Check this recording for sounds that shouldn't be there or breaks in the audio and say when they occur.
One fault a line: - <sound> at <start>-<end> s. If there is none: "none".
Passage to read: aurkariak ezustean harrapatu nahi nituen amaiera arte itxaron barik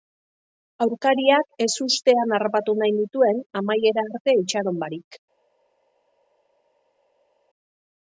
none